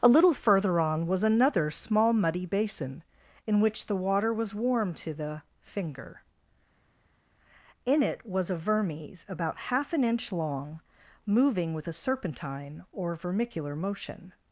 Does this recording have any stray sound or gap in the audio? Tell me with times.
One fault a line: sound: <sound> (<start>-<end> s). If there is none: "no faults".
no faults